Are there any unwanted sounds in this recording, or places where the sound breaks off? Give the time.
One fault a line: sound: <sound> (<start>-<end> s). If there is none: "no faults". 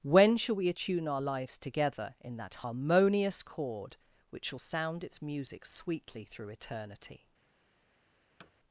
sound: thud (8.4-8.5 s)